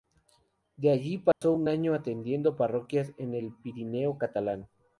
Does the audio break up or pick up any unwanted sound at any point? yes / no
yes